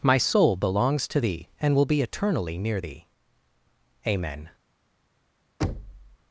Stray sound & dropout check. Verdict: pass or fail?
fail